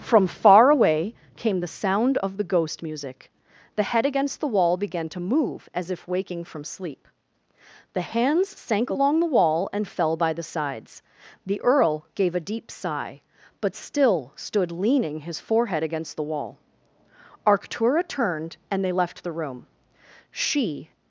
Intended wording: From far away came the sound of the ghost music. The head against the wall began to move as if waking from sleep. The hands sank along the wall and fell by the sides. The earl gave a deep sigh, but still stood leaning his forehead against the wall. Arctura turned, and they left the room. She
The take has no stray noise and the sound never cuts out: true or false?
true